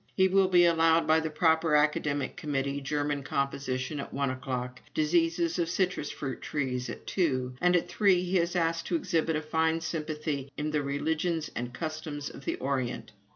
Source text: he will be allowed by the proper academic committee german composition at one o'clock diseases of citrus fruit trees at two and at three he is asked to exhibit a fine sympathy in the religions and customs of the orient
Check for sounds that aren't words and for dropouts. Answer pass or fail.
pass